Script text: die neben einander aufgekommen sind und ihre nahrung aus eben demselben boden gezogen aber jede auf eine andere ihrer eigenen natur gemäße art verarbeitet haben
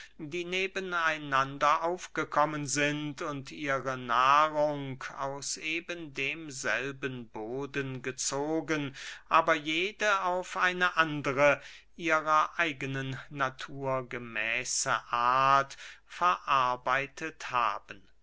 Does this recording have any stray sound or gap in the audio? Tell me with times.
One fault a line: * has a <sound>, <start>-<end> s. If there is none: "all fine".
all fine